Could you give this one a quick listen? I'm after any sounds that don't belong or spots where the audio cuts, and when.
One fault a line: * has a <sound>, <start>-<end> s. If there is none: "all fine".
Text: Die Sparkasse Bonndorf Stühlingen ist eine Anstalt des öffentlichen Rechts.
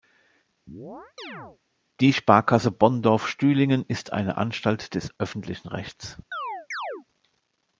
* has a chirp, 0.7-1.6 s
* has a chirp, 6.3-7.1 s